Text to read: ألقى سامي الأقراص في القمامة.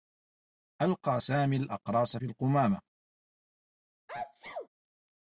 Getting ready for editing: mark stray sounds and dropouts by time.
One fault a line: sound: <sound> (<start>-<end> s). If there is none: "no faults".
sound: sneeze (4.1-4.7 s)